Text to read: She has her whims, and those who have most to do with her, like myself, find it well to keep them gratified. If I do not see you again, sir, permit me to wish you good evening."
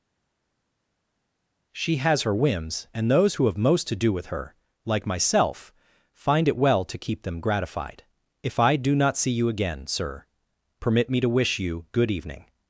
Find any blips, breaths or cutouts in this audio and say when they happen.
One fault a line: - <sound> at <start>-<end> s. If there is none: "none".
none